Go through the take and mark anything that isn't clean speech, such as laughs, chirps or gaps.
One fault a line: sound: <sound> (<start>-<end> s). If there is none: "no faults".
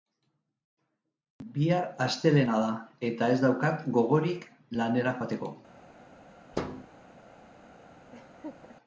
sound: thud (6.5-6.9 s)
sound: laugh (8.1-8.8 s)